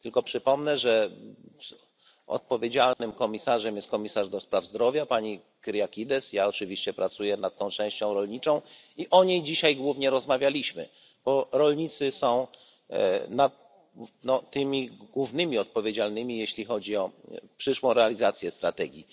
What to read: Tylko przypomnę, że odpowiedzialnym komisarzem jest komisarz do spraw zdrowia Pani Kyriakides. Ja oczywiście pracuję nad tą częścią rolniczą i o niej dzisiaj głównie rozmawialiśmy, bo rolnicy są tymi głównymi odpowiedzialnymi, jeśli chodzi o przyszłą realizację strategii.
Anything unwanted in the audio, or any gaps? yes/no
yes